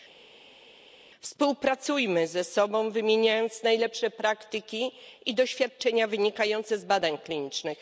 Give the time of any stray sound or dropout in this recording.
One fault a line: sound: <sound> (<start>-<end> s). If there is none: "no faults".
no faults